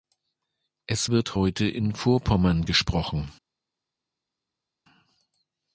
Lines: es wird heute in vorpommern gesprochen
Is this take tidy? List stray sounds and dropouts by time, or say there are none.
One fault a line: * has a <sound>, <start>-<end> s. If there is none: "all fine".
all fine